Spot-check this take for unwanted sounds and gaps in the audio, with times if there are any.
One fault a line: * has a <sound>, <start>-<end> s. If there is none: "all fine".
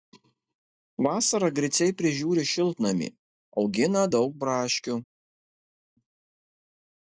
all fine